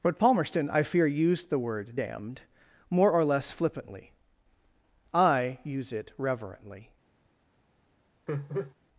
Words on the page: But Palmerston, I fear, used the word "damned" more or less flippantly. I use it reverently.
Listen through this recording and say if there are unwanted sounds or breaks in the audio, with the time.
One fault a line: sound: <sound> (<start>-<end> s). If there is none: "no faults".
sound: laugh (8.3-8.7 s)